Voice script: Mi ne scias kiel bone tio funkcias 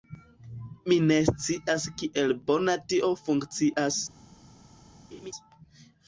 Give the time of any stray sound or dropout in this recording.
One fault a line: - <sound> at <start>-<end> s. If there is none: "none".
- laugh at 5.1-5.3 s